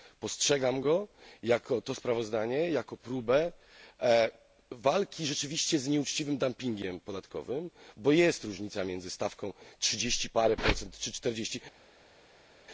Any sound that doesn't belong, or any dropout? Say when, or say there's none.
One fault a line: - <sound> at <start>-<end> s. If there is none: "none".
none